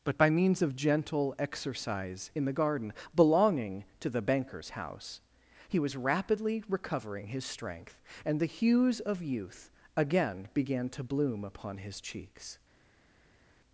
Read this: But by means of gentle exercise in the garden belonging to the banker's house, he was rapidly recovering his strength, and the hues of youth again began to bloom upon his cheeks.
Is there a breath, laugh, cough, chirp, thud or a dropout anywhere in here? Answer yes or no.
no